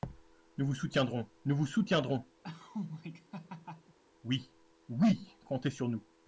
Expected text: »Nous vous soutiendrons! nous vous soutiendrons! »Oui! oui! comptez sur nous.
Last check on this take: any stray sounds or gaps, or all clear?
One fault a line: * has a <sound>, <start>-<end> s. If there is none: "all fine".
* has a laugh, 2.4-4.0 s